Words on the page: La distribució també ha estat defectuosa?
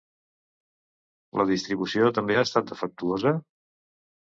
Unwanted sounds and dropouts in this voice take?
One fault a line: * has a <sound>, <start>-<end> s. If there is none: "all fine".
all fine